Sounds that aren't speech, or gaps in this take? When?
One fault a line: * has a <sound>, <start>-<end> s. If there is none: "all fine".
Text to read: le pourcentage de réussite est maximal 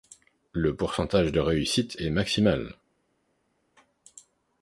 all fine